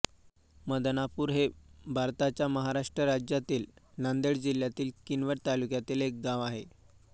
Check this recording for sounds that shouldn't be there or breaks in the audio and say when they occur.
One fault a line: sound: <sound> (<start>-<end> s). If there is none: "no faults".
no faults